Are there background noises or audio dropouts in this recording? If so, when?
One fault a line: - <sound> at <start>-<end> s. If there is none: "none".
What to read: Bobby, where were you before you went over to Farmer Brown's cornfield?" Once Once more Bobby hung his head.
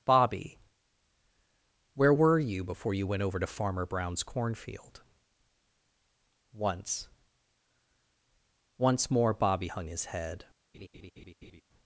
- laugh at 10.7-11.6 s